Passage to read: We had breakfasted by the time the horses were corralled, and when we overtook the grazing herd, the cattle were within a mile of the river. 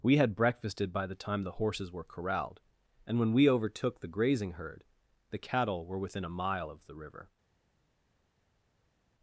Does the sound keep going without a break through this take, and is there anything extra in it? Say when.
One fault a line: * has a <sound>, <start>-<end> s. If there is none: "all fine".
all fine